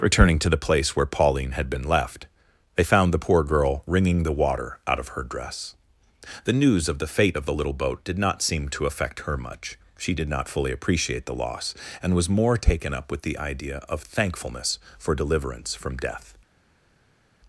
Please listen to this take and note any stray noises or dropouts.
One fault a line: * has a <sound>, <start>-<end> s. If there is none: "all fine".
all fine